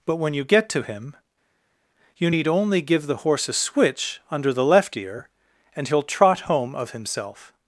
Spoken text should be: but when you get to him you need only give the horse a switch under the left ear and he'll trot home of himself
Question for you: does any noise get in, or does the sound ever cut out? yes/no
no